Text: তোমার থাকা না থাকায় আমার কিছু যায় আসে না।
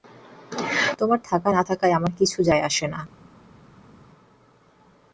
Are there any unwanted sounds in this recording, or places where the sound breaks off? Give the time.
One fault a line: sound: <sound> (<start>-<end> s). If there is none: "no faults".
no faults